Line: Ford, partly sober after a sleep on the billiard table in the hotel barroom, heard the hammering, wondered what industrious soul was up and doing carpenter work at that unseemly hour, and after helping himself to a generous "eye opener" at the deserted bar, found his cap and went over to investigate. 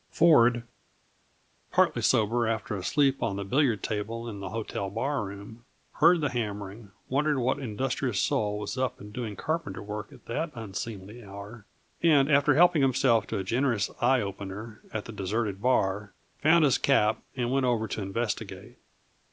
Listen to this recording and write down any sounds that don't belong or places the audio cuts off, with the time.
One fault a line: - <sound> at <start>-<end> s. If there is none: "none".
none